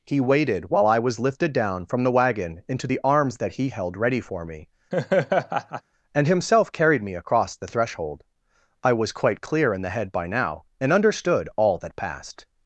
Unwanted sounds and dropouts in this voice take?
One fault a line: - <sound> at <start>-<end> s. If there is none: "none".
- laugh at 4.9-5.8 s